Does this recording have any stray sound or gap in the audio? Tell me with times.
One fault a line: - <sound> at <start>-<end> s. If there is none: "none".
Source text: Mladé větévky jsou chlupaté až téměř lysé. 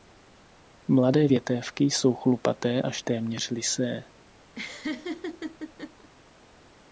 - laugh at 4.5-6.1 s